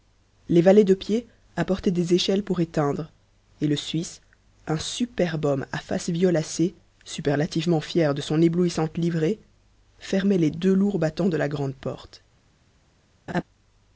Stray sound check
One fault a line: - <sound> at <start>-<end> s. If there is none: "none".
- laugh at 13.3-13.4 s